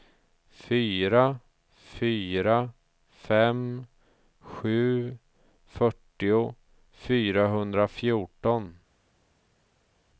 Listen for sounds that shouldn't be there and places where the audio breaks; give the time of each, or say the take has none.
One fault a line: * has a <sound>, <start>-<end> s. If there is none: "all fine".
all fine